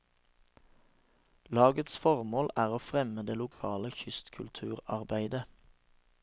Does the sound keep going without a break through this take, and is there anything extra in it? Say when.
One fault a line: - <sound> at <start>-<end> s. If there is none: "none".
- dropout at 3.5-3.6 s